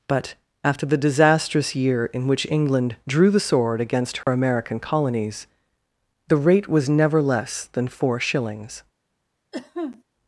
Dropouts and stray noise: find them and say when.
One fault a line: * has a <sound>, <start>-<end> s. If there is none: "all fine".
* has a dropout, 4.2-4.3 s
* has a cough, 9.5-10.0 s